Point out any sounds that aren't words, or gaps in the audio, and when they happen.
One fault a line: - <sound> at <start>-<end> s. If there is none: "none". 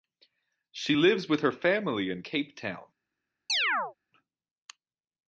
- chirp at 3.5-3.9 s